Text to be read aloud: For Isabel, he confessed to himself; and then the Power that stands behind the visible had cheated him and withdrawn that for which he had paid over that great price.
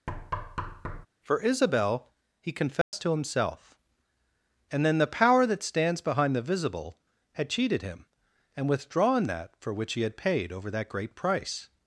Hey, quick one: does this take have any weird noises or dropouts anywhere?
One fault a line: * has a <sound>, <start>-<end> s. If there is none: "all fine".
* has a thud, 0.1-1.1 s
* has a dropout, 2.8-2.9 s